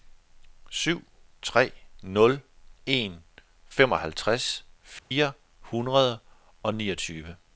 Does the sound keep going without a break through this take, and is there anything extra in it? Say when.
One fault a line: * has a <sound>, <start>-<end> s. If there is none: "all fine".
* has a dropout, 5.0-5.1 s